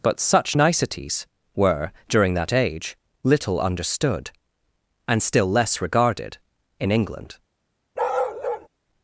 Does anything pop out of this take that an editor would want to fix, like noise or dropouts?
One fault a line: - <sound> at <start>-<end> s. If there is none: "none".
- bark at 8.0-8.7 s